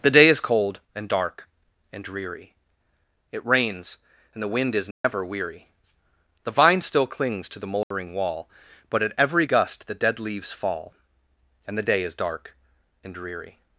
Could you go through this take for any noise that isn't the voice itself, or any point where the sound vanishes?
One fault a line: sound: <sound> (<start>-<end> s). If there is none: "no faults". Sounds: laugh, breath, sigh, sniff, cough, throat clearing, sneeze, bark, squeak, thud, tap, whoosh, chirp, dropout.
sound: dropout (4.9-5.0 s)
sound: dropout (7.8-7.9 s)